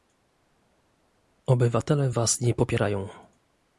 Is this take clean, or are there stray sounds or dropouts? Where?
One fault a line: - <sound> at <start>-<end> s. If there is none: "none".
none